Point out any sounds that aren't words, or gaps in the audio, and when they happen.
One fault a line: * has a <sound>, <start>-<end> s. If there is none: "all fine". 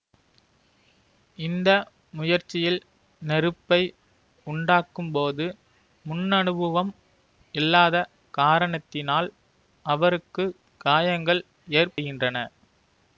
all fine